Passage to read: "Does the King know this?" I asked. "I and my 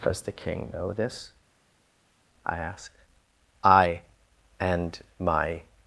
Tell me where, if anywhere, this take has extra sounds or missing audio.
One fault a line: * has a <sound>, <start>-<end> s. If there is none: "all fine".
all fine